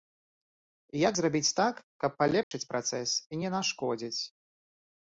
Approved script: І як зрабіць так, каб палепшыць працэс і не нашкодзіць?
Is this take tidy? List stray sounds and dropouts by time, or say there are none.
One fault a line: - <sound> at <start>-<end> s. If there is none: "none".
- dropout at 2.4-2.5 s